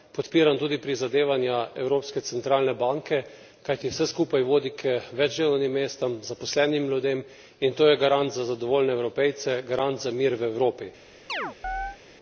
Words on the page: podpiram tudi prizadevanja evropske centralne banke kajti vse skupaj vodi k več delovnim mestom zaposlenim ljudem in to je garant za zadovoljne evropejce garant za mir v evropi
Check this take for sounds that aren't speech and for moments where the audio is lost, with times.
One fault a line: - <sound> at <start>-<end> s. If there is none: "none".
- chirp at 11.3-12.0 s